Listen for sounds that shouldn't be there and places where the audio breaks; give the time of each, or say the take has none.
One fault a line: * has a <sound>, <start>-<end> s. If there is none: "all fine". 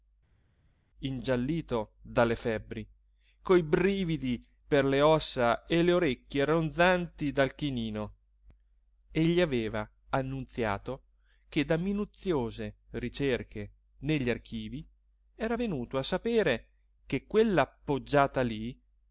all fine